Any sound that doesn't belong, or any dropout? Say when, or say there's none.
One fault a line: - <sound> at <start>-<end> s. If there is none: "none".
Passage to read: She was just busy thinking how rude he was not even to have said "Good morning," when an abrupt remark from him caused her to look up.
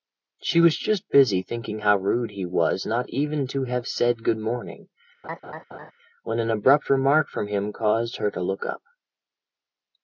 - laugh at 5.2-5.9 s